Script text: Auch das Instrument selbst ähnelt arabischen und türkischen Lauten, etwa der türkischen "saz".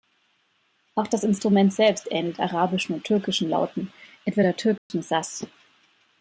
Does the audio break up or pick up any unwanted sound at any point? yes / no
yes